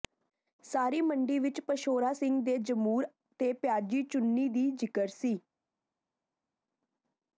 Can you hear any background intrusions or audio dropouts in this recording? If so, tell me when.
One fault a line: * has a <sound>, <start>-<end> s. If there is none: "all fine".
all fine